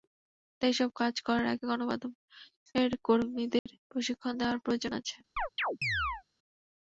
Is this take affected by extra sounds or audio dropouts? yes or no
yes